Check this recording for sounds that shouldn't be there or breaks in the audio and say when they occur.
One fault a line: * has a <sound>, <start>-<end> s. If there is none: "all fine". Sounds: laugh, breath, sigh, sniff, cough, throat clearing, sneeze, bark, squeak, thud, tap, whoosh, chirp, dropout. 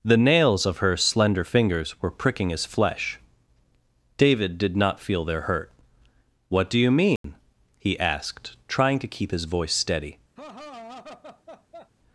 * has a dropout, 7.2-7.2 s
* has a laugh, 10.4-11.9 s